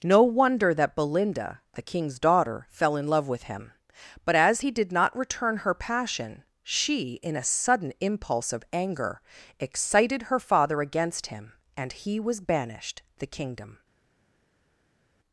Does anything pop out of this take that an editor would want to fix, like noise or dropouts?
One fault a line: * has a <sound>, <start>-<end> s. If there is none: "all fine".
all fine